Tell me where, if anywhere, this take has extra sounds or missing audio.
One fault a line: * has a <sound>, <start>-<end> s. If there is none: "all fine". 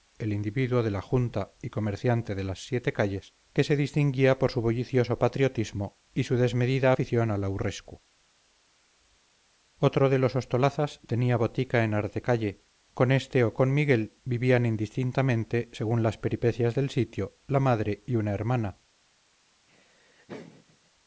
* has a laugh, 19.7-20.9 s